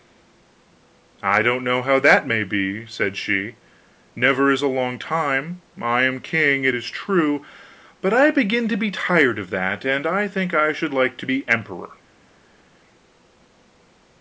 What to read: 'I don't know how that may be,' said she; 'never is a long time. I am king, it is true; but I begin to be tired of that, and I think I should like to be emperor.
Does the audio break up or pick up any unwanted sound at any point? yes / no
no